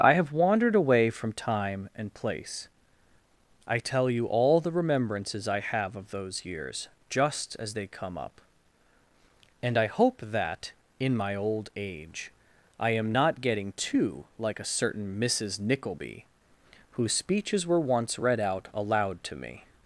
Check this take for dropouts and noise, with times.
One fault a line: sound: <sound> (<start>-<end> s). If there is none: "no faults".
no faults